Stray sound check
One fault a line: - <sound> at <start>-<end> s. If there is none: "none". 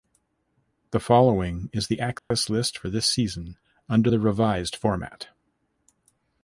- dropout at 2.2-2.3 s